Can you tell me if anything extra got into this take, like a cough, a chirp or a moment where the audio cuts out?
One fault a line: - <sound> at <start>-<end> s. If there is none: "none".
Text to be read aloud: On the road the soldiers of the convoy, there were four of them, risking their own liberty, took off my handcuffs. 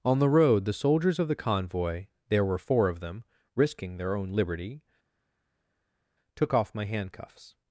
none